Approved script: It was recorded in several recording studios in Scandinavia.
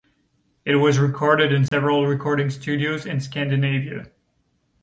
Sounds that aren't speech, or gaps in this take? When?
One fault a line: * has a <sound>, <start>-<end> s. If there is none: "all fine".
* has a dropout, 1.7-1.7 s